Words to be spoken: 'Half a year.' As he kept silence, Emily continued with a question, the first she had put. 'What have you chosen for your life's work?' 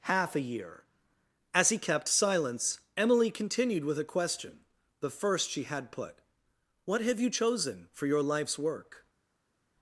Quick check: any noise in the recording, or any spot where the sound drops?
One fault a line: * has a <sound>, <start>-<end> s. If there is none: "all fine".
all fine